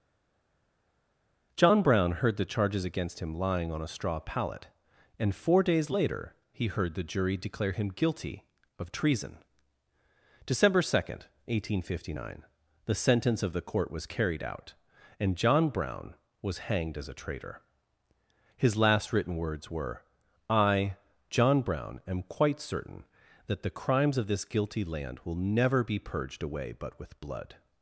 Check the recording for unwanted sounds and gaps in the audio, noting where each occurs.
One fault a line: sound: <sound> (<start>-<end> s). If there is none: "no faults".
no faults